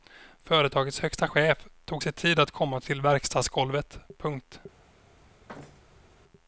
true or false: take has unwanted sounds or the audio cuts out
true